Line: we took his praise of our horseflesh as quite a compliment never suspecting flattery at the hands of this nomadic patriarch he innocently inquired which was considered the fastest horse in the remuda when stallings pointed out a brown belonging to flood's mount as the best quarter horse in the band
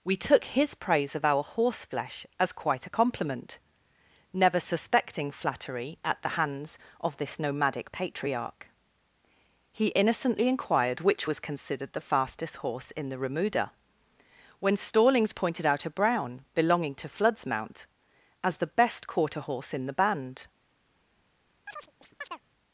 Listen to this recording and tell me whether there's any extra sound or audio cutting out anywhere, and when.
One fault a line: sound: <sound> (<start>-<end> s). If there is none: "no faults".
sound: chirp (21.7-22.4 s)